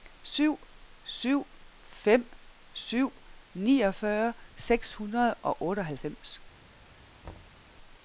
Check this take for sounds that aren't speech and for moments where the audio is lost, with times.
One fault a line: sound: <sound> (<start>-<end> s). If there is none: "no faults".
sound: thud (7.2-7.6 s)